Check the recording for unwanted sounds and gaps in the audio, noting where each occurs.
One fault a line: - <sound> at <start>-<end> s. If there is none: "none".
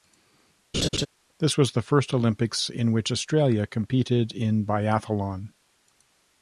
- laugh at 0.7-1.1 s